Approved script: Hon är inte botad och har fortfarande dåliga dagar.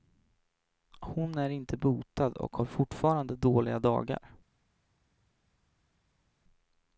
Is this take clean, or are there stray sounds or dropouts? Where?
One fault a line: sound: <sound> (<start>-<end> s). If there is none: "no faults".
no faults